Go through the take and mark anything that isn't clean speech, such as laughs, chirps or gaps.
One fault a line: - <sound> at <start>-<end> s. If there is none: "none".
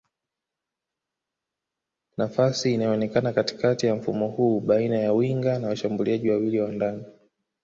none